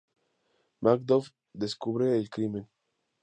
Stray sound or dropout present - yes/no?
no